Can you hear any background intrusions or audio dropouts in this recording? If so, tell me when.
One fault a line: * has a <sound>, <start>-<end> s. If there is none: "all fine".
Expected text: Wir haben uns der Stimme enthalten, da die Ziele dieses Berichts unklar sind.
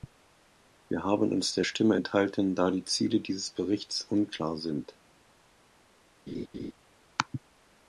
* has a laugh, 6.3-6.7 s